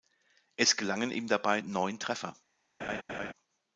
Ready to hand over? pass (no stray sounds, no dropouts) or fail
fail